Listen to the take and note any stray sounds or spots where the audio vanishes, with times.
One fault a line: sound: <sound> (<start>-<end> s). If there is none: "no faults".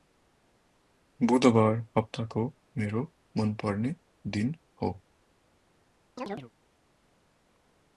sound: chirp (6.2-6.5 s)